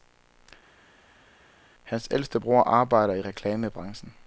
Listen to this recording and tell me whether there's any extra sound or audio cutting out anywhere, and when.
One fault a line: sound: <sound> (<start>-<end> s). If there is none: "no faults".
no faults